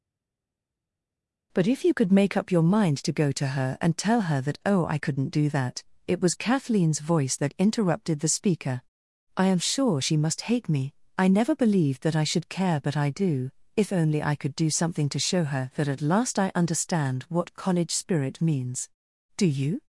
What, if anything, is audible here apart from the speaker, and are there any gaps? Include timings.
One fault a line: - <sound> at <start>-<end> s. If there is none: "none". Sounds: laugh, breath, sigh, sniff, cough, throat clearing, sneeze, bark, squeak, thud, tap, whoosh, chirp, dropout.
none